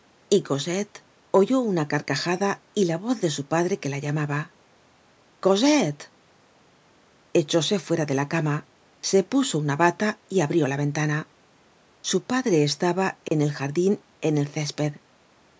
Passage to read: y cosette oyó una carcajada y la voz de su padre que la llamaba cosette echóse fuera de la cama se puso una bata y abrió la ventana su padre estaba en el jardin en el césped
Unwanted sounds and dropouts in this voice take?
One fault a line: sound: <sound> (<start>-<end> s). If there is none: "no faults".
sound: dropout (13.3-13.3 s)